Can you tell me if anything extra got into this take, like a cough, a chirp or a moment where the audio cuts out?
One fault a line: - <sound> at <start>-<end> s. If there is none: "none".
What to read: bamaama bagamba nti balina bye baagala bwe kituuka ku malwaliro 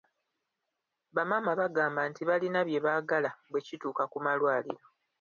none